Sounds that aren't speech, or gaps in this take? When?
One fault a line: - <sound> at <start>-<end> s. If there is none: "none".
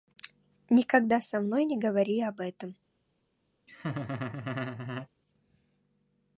- laugh at 3.7-5.1 s